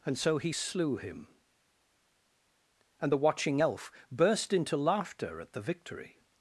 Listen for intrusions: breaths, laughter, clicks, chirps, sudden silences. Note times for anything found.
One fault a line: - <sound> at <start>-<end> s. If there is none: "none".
none